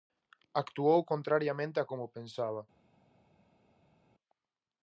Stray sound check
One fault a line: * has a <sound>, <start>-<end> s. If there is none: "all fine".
all fine